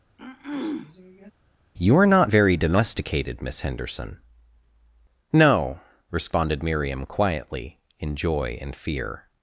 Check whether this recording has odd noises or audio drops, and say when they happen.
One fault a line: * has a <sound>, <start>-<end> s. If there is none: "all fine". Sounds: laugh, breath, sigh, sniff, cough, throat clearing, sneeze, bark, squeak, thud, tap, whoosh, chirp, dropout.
* has a throat clearing, 0.2-1.3 s